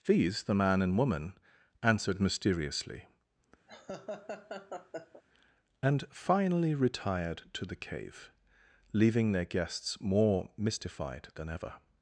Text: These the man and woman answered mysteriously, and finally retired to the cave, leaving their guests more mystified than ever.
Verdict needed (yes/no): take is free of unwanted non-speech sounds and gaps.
no